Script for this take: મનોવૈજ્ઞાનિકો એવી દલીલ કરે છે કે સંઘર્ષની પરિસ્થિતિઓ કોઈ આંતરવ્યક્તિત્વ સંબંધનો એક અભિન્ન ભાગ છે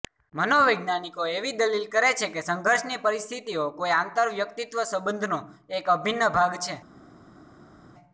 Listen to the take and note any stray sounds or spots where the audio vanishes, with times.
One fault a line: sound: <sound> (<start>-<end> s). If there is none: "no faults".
no faults